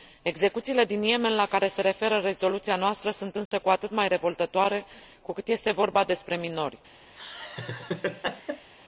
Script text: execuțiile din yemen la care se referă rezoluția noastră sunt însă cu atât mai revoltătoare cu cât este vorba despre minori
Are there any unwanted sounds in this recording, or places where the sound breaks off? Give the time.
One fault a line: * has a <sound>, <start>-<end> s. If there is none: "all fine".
* has a dropout, 3.5-3.5 s
* has a laugh, 7.2-8.7 s